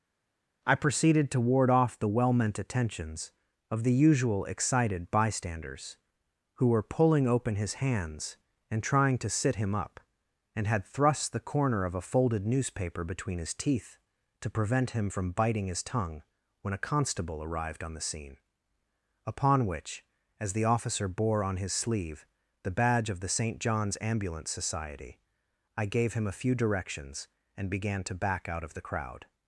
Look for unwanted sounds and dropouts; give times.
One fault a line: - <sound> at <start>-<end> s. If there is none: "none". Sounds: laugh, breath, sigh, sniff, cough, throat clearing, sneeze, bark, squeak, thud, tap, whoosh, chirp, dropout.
none